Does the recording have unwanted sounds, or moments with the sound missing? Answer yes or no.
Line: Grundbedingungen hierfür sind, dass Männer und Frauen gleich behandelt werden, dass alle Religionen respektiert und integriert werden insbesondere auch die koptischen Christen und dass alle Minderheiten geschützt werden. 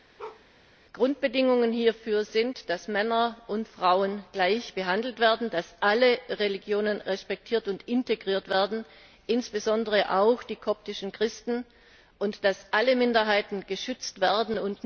yes